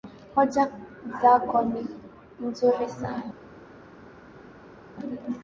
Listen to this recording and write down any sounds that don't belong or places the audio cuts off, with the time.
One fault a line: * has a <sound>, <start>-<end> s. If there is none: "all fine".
all fine